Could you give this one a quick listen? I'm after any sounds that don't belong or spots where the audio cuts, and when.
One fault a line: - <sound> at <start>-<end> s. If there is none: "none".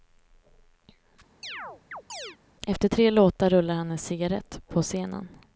- chirp at 1.4-2.4 s